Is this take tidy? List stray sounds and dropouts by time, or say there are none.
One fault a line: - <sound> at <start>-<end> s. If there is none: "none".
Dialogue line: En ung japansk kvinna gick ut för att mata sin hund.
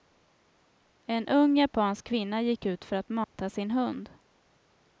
- dropout at 3.2-3.3 s